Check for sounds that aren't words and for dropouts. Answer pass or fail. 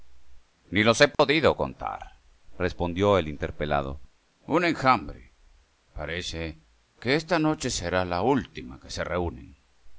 fail